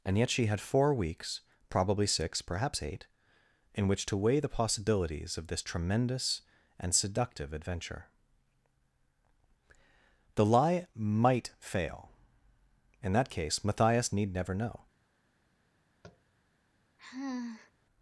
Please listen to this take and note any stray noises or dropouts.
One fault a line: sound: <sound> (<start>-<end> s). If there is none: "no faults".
sound: tap (16.0-16.2 s)
sound: sigh (17.0-17.7 s)